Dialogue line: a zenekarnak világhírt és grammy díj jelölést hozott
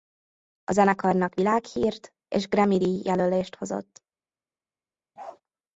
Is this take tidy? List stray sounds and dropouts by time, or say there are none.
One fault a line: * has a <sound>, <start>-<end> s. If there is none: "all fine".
* has a bark, 5.2-5.4 s